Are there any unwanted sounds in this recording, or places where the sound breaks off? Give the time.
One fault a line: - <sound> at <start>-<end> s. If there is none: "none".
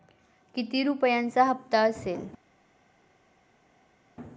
none